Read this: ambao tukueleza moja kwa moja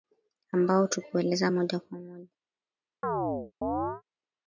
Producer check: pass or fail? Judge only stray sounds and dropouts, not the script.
fail